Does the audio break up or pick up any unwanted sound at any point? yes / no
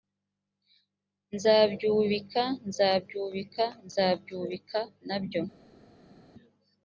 no